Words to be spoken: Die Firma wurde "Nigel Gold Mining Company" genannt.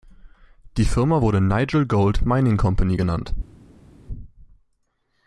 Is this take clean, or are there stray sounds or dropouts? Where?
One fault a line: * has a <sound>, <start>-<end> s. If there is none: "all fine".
all fine